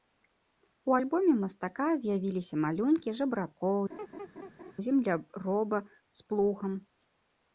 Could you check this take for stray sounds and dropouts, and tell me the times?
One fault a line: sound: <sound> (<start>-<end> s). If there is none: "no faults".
sound: laugh (3.9-4.7 s)